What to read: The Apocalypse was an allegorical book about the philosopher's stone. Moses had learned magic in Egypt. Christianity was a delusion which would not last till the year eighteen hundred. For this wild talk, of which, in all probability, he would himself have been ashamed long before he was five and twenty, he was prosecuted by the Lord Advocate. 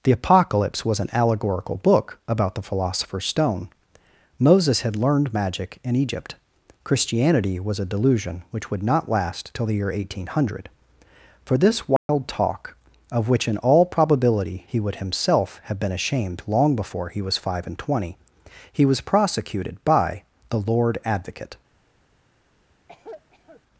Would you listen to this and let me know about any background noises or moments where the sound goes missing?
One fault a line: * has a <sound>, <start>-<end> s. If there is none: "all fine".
* has a dropout, 12.0-12.1 s
* has a cough, 22.9-23.6 s